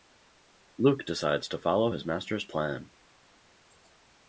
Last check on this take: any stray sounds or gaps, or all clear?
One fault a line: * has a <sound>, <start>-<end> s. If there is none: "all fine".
all fine